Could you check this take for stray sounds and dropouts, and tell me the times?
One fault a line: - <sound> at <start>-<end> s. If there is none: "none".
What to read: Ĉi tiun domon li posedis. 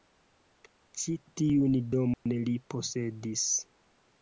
- dropout at 2.1-2.3 s